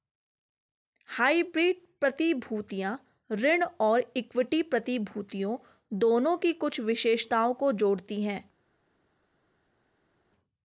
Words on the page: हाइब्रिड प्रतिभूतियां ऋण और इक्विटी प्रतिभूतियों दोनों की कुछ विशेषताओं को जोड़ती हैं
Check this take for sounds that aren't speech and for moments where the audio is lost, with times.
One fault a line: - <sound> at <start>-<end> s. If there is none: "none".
none